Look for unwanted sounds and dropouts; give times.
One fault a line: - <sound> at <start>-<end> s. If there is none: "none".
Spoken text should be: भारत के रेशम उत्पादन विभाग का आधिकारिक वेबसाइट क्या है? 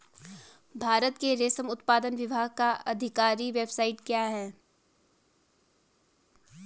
none